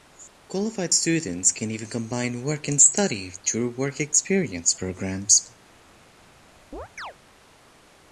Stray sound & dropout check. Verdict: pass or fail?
fail